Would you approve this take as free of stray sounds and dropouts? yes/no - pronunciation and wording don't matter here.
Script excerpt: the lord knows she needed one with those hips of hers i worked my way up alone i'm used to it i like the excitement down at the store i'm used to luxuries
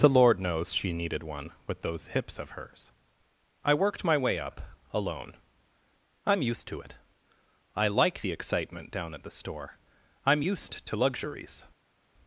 yes